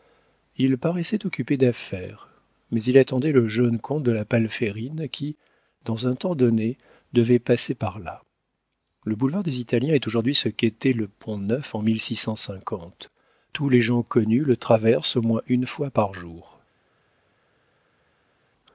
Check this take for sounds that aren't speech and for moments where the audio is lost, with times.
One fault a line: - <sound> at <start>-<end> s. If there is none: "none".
none